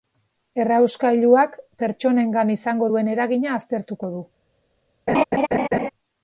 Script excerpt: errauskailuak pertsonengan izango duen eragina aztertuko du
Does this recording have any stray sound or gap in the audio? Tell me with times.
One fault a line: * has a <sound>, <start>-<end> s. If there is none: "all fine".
* has a laugh, 5.1-5.9 s